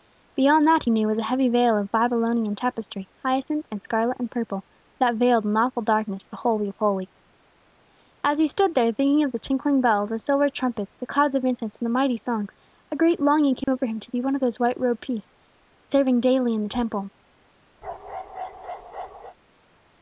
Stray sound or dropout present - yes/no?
yes